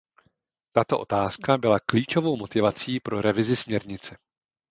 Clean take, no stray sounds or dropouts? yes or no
yes